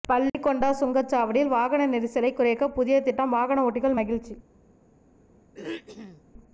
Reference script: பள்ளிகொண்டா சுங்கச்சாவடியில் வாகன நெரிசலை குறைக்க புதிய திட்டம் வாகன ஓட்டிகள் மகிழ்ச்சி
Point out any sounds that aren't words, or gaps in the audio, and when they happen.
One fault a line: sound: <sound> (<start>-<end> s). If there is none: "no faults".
sound: throat clearing (5.5-6.2 s)